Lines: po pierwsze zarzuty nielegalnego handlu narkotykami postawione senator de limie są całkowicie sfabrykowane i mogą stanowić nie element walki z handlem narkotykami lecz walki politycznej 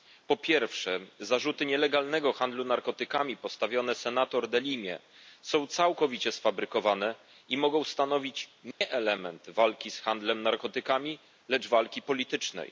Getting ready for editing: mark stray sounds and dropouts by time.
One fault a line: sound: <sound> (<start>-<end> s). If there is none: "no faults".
sound: dropout (8.7-8.8 s)